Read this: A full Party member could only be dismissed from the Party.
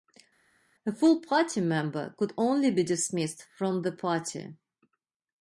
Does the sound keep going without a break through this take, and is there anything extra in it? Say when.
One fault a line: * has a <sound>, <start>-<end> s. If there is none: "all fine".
all fine